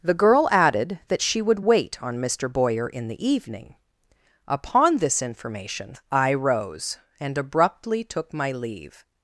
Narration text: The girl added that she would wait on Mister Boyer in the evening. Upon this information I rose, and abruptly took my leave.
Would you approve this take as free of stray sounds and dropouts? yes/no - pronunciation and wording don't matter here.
yes